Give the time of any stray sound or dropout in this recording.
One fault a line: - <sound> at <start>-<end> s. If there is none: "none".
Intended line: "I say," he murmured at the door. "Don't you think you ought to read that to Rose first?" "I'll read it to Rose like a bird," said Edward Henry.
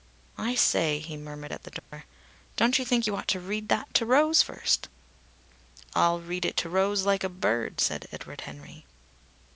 - dropout at 1.8-1.9 s